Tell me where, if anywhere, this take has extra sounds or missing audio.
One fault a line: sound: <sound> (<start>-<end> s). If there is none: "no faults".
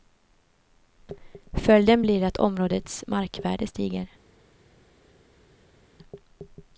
no faults